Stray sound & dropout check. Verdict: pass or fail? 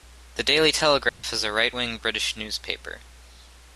fail